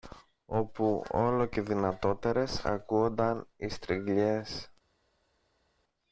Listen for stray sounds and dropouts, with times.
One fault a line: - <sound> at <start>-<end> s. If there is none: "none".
none